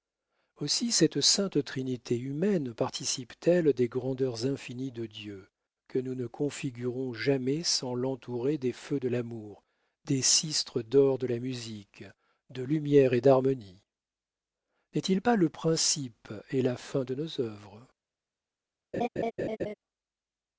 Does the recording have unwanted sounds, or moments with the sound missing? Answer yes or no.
yes